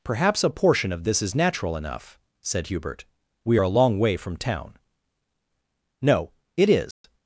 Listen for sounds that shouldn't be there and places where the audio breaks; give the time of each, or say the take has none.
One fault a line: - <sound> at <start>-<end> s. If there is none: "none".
- dropout at 6.9-7.0 s